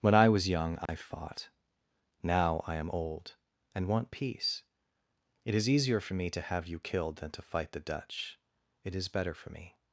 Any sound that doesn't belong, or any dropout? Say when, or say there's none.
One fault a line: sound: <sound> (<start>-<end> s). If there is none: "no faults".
sound: dropout (0.9-0.9 s)